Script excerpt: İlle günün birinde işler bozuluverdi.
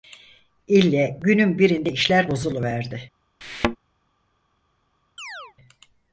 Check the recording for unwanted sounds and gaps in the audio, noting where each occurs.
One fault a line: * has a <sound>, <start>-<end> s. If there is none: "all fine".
* has a thud, 3.4-3.8 s
* has a chirp, 5.2-5.5 s